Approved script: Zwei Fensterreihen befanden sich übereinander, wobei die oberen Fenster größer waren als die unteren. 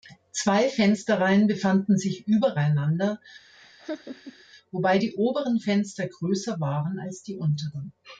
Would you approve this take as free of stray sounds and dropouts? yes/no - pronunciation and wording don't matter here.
no